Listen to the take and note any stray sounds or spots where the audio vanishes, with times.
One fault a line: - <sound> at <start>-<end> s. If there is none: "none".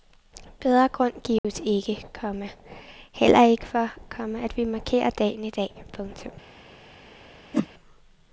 - dropout at 1.4-1.4 s
- whoosh at 7.5-7.7 s